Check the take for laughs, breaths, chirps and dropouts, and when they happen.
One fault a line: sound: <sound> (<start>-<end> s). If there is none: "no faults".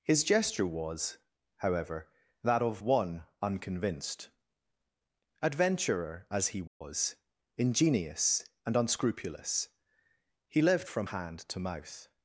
sound: dropout (6.7-6.8 s)